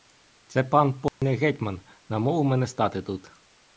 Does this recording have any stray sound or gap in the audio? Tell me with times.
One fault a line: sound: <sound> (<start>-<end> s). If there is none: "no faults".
sound: dropout (1.1-1.2 s)